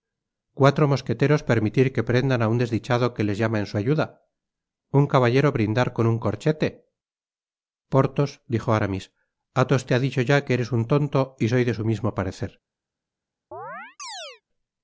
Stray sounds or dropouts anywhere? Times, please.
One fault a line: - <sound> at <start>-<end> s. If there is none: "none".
- chirp at 13.5-14.4 s